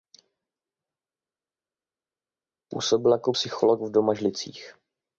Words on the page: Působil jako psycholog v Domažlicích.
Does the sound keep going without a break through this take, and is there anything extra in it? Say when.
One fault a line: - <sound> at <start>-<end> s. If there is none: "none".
none